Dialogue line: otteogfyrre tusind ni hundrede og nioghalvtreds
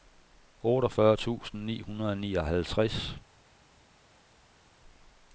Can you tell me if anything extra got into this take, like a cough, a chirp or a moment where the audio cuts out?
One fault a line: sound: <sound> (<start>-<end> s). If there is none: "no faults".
no faults